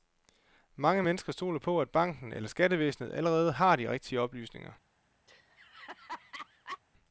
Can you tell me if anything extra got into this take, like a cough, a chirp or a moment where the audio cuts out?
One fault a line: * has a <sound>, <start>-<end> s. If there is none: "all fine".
* has a laugh, 5.3-6.8 s